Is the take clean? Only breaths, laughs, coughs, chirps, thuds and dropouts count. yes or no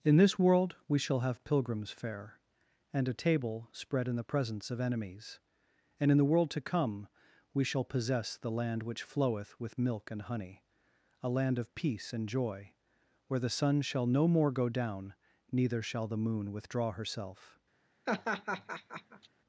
no